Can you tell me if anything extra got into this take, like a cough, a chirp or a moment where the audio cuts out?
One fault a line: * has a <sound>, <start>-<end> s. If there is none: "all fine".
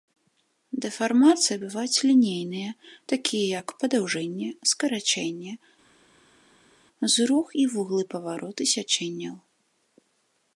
all fine